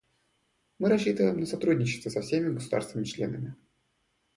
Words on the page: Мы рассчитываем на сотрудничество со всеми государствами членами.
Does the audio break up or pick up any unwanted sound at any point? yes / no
no